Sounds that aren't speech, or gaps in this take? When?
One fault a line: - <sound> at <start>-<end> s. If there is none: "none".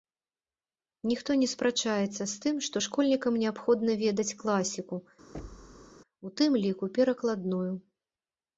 - thud at 5.3-6.0 s